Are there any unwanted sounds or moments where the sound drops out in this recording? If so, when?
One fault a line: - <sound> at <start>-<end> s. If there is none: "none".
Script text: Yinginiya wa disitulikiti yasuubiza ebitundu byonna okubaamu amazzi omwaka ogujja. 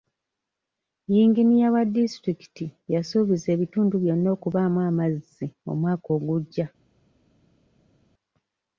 none